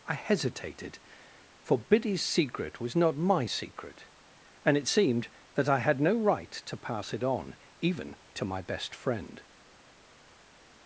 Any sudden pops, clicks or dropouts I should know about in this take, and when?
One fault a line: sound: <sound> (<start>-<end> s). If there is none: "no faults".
no faults